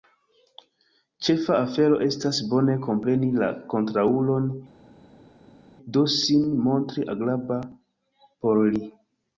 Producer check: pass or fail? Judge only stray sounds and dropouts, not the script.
pass